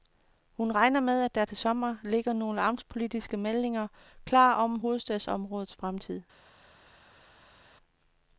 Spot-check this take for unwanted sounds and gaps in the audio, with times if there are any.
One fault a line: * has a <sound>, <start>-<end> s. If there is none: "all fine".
all fine